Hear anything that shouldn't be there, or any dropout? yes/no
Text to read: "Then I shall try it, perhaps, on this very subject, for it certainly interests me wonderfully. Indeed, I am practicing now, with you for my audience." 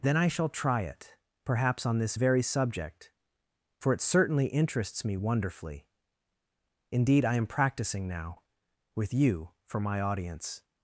no